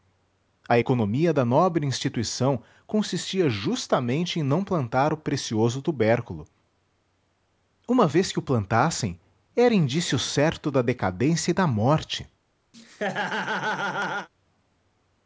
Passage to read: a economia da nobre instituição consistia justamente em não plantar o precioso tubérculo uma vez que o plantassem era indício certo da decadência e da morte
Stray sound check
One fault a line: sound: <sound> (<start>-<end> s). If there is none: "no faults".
sound: laugh (12.7-14.3 s)